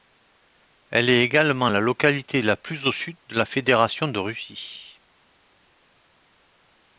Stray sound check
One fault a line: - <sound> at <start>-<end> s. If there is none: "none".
none